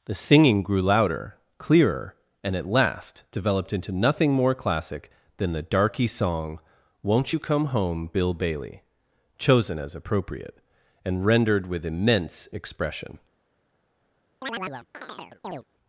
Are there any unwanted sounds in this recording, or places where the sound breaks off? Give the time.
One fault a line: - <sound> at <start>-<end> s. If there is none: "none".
- chirp at 14.4-15.6 s